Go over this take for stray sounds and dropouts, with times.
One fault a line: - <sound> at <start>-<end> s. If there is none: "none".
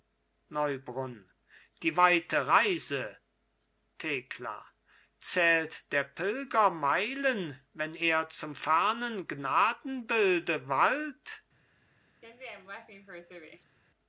- laugh at 12.2-13.8 s